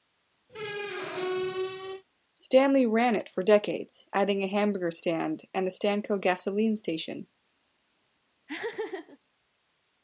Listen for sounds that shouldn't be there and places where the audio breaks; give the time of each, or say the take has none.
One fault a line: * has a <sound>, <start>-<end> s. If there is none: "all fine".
* has a squeak, 0.5-2.0 s
* has a laugh, 8.5-9.2 s